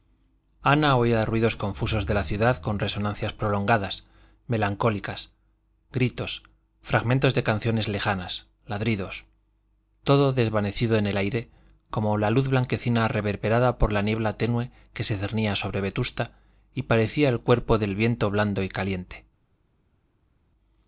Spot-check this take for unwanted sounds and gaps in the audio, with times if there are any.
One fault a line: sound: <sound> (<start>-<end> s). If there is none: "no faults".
no faults